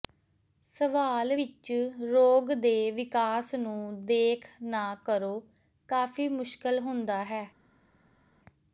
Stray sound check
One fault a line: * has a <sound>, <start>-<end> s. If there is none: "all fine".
all fine